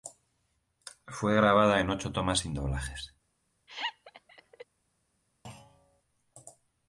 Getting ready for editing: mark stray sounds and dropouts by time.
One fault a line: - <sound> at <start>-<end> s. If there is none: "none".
- laugh at 3.7-4.7 s
- thud at 5.4-6.0 s